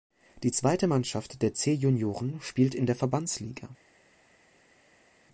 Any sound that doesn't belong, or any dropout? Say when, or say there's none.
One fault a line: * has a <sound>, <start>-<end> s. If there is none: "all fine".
all fine